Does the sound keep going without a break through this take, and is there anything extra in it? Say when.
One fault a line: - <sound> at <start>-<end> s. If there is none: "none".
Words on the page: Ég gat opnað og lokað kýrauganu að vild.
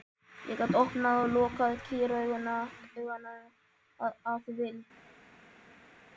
none